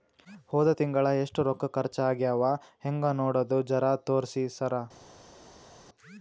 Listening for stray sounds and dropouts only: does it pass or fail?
pass